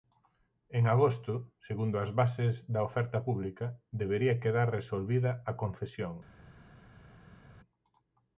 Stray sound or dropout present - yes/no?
no